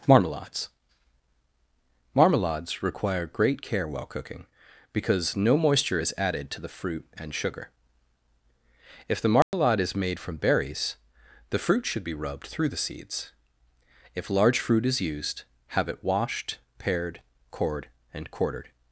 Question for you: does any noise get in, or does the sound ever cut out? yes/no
yes